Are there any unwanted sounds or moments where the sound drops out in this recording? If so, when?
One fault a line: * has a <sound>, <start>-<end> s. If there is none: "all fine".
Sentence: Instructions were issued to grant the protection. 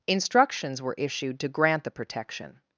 all fine